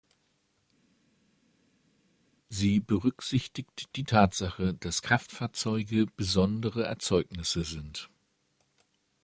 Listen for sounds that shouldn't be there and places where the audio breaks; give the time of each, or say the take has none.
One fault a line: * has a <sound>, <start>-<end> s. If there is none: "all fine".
all fine